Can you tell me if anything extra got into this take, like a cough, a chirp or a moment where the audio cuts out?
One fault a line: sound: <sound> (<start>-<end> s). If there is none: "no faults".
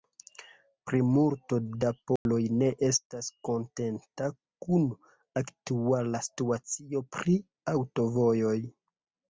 sound: dropout (2.2-2.3 s)